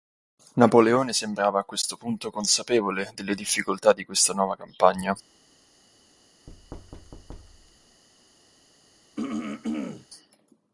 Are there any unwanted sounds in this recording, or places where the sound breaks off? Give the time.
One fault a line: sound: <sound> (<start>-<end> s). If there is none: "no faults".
sound: thud (6.5-8.0 s)
sound: throat clearing (9.2-10.1 s)